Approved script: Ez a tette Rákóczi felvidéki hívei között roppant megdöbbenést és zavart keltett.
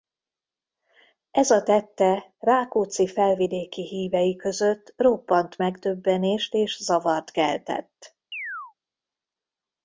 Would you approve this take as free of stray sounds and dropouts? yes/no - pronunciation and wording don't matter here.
no